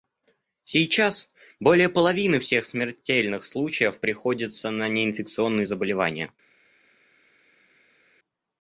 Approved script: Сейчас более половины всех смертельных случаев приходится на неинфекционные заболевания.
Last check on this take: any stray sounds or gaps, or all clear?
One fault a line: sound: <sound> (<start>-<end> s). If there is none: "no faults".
no faults